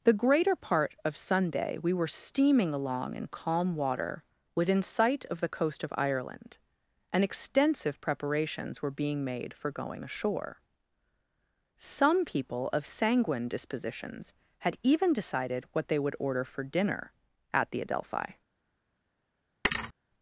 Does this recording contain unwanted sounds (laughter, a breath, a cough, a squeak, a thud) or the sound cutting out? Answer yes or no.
yes